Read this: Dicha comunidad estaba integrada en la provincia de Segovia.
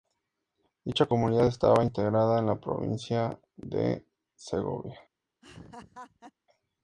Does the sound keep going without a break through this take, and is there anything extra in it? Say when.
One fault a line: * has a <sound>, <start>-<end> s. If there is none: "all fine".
* has a laugh, 5.4-6.3 s